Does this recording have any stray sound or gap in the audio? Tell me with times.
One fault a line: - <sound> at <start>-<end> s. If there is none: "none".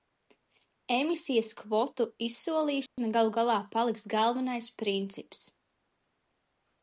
- dropout at 2.9-3.0 s